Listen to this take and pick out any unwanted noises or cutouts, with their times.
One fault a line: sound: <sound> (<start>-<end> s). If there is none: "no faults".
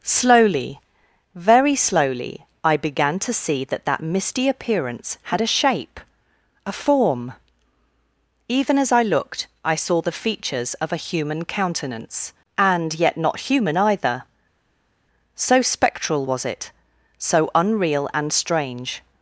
no faults